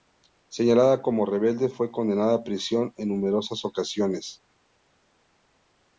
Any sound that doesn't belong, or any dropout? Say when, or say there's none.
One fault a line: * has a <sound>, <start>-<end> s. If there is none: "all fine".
all fine